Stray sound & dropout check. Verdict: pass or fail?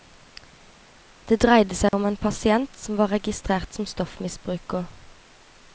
fail